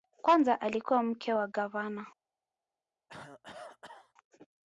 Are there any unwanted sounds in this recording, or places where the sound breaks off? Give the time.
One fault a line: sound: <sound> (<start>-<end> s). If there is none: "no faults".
sound: cough (3.1-4.1 s)